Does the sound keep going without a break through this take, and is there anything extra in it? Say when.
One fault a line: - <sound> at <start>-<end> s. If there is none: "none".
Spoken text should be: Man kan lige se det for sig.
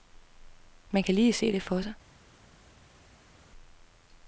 none